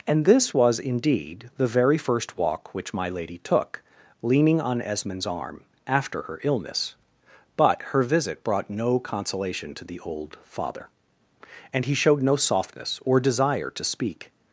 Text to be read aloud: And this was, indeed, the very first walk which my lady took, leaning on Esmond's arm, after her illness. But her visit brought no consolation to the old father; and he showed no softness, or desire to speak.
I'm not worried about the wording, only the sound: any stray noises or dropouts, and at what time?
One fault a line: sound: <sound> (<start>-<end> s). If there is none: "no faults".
no faults